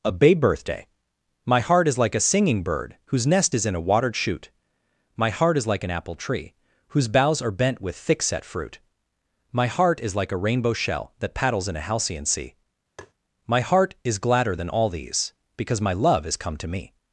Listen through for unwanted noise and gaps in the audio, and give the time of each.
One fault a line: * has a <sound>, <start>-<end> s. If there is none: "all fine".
* has a tap, 13.0-13.1 s